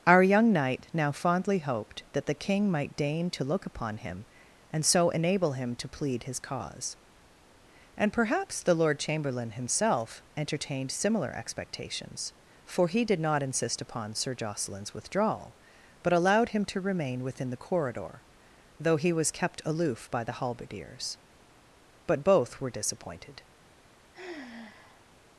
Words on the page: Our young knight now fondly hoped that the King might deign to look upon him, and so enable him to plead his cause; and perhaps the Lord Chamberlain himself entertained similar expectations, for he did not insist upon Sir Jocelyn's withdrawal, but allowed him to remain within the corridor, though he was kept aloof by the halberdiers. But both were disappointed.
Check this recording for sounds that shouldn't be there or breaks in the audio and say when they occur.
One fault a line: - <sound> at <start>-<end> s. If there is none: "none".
- sigh at 24.1-25.1 s